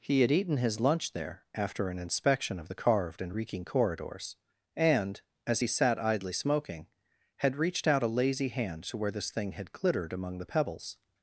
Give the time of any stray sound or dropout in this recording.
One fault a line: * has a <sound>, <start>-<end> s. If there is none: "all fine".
all fine